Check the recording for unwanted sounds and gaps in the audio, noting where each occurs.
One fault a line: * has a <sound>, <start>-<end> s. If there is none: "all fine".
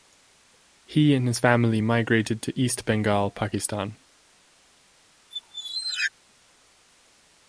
* has a squeak, 5.3-6.1 s